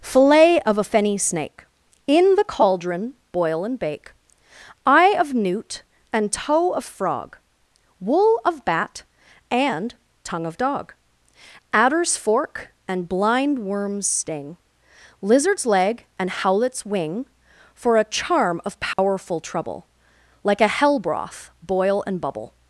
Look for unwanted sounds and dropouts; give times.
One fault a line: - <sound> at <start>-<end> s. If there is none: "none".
- dropout at 18.9-19.0 s